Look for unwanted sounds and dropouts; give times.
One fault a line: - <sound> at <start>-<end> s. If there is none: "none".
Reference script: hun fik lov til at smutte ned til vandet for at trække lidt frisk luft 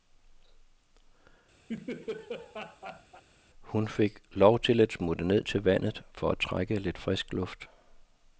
- laugh at 1.7-3.2 s